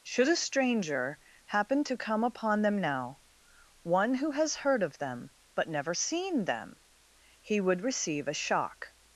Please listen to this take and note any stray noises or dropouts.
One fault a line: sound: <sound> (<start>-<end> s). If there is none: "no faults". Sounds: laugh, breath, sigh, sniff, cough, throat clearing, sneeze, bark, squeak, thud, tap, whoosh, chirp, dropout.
no faults